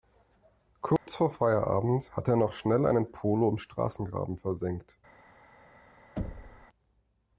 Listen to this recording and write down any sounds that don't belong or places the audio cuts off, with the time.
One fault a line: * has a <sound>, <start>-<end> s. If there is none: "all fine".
* has a dropout, 1.0-1.1 s
* has a thud, 6.2-6.7 s